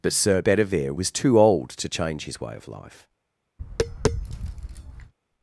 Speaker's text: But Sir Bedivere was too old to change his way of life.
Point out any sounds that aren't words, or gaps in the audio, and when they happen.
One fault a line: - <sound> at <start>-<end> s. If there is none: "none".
- tap at 3.6-5.1 s